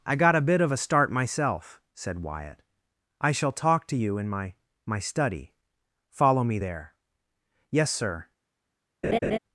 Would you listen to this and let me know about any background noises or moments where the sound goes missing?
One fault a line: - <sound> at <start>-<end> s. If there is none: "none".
- laugh at 9.0-9.4 s